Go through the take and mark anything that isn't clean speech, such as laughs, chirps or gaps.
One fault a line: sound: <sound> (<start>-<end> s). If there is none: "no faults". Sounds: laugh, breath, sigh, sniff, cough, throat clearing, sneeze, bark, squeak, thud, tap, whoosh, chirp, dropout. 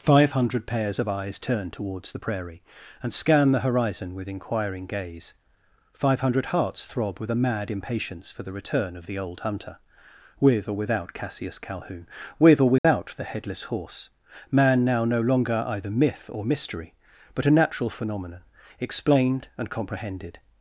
sound: dropout (12.8-12.8 s)